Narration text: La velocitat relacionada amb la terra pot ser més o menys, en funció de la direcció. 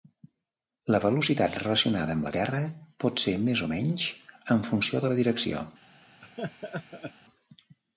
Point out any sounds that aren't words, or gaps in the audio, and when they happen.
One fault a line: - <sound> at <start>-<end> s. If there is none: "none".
- laugh at 6.2-7.1 s